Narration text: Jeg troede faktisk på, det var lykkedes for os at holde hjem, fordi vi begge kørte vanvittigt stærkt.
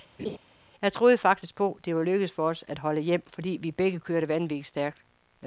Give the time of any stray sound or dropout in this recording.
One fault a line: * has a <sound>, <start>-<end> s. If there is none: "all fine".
* has a laugh, 0.2-0.4 s